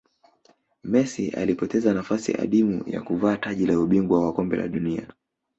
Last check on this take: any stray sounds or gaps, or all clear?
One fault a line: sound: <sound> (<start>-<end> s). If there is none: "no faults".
no faults